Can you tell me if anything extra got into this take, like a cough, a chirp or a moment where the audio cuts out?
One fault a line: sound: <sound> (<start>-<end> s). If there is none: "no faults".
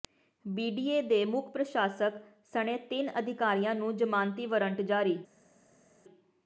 no faults